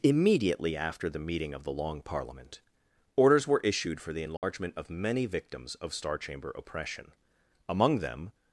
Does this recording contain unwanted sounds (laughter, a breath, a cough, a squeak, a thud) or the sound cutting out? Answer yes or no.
yes